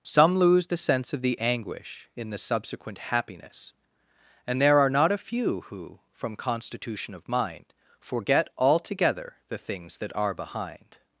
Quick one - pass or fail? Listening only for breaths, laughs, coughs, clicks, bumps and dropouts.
pass